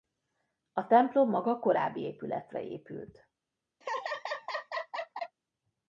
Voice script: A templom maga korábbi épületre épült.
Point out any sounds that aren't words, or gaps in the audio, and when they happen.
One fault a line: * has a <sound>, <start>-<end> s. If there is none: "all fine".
* has a laugh, 3.8-5.4 s